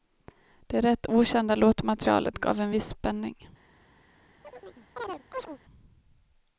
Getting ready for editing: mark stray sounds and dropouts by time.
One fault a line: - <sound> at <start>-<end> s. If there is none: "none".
- chirp at 4.4-5.6 s